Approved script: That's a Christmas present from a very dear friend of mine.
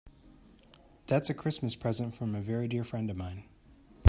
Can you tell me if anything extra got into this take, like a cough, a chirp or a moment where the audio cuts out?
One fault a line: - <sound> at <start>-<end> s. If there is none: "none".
none